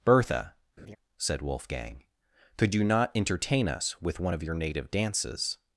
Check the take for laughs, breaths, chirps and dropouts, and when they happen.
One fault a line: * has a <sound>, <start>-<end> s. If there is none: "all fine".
* has a laugh, 0.8-1.0 s